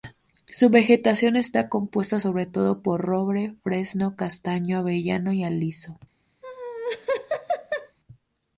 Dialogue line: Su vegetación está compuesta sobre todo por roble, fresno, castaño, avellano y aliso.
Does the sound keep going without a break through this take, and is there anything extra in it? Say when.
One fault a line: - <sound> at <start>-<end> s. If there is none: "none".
- laugh at 6.4-8.0 s